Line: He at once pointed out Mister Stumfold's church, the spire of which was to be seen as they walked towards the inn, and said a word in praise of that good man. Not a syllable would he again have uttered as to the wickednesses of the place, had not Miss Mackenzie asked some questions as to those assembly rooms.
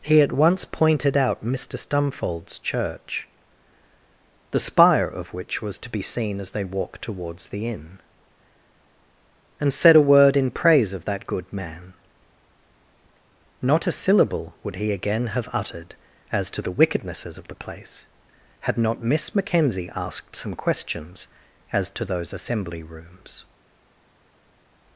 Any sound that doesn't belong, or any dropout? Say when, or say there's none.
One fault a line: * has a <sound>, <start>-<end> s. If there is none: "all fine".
all fine